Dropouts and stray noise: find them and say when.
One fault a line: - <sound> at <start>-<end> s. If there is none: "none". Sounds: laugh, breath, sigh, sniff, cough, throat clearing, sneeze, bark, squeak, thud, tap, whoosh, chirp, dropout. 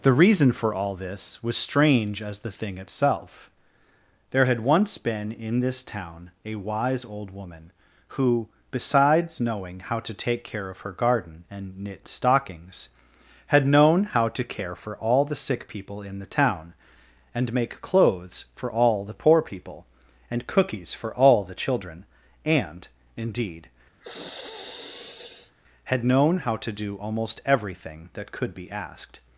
- sigh at 24.0-25.6 s